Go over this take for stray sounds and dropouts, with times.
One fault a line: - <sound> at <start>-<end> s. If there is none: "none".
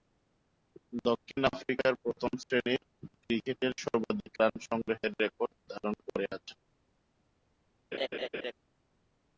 - laugh at 7.9-8.5 s